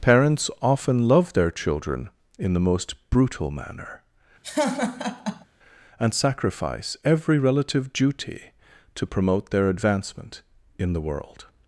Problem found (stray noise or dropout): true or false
true